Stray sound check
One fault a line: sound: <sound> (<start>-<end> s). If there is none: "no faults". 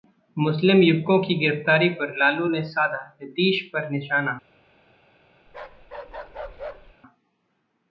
sound: bark (5.5-6.9 s)